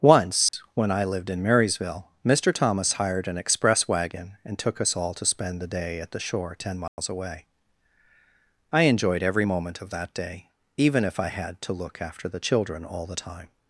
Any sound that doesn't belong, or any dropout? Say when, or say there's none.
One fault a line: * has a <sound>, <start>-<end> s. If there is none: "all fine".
* has a dropout, 0.5-0.5 s
* has a dropout, 6.9-7.0 s